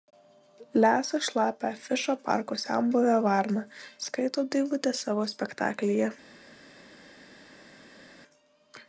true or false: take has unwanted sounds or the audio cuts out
false